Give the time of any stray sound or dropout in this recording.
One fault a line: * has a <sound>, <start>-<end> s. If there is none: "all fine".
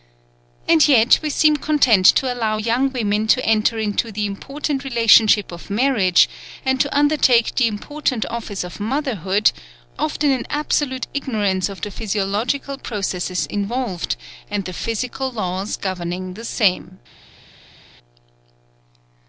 all fine